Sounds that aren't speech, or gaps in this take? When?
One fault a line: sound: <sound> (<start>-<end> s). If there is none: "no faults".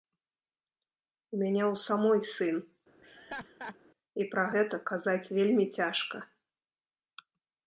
sound: laugh (3.0-3.8 s)